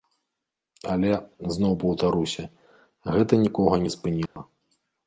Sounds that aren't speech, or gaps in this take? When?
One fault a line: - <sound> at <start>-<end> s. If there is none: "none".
- dropout at 4.3-4.4 s